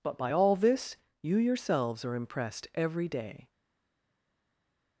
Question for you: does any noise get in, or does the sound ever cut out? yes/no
no